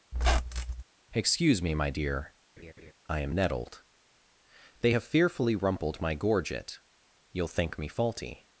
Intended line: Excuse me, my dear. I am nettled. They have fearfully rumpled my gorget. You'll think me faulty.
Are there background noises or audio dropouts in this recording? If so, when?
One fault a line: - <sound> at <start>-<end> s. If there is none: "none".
- squeak at 0.1-0.8 s
- laugh at 2.6-2.9 s